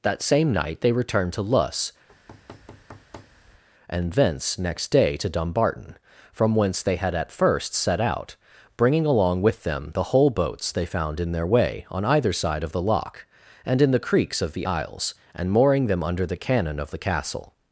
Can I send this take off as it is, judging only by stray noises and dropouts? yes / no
no